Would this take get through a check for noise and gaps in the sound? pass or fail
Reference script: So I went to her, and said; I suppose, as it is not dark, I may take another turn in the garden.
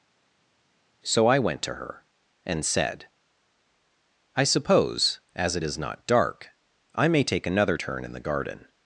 pass